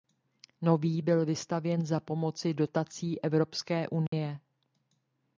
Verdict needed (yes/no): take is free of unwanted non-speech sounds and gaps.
no